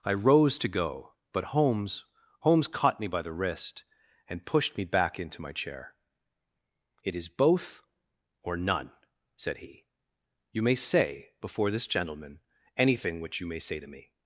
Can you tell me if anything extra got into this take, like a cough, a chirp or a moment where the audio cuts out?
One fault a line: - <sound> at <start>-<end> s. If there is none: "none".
none